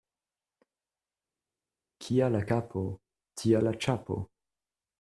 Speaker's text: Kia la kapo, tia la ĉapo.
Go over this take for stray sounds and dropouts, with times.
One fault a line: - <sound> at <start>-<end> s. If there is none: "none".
none